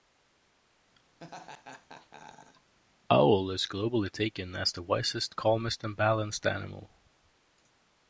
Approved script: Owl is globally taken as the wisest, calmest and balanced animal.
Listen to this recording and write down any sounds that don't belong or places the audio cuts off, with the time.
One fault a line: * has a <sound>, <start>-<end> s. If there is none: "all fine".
* has a laugh, 1.2-2.7 s